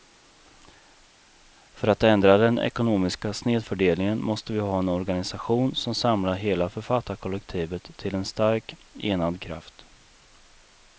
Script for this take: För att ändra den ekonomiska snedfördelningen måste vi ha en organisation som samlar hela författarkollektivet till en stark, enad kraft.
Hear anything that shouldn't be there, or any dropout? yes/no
no